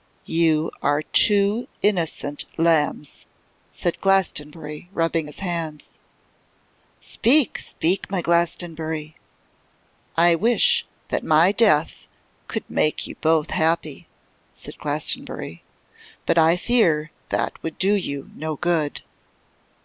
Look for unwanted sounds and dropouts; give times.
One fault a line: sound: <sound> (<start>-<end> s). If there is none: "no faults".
no faults